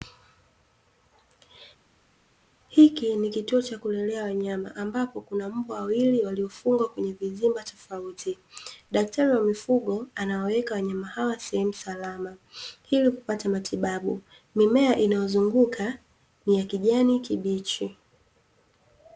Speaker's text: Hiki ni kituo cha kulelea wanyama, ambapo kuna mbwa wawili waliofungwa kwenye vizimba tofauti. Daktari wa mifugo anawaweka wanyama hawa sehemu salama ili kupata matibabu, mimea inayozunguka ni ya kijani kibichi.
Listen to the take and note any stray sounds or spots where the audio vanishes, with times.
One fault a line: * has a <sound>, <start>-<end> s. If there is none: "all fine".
all fine